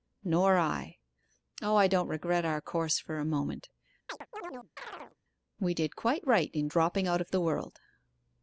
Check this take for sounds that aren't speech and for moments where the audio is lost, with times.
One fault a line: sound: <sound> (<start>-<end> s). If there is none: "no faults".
sound: chirp (4.1-5.2 s)